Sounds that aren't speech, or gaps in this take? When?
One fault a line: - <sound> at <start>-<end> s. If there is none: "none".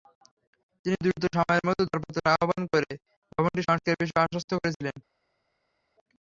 none